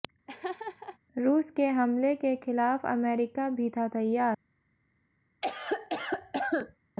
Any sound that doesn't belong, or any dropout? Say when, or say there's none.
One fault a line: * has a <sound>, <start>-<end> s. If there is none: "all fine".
* has a laugh, 0.3-1.0 s
* has a cough, 5.4-6.8 s